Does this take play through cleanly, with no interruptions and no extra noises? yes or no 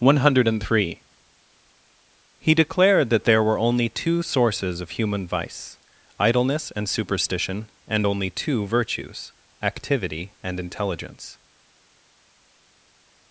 yes